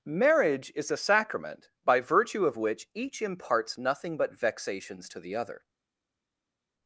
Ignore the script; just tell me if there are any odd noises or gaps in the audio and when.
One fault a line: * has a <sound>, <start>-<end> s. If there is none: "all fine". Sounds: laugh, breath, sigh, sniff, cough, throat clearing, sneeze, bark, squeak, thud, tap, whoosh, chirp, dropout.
all fine